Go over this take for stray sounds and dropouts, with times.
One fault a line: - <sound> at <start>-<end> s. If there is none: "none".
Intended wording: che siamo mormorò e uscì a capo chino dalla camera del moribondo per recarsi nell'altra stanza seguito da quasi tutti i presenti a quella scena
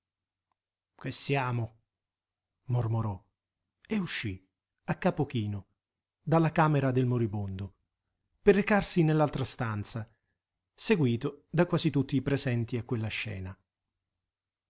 none